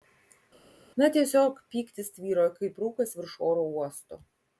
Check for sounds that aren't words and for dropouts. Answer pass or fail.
pass